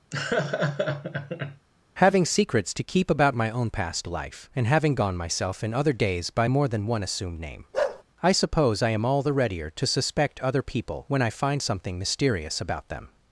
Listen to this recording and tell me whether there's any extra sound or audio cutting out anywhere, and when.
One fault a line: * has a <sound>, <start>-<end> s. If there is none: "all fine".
* has a laugh, 0.1-1.7 s
* has a bark, 7.7-8.0 s